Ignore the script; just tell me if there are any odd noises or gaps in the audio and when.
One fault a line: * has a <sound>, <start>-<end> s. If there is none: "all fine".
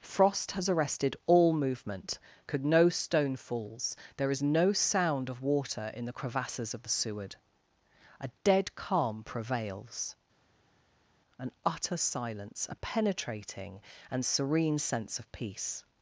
all fine